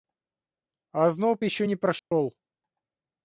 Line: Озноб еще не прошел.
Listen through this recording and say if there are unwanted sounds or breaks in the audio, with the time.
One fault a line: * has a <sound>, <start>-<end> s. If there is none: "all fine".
* has a dropout, 2.0-2.1 s